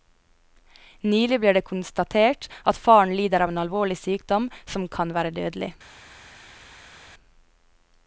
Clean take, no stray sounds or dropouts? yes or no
yes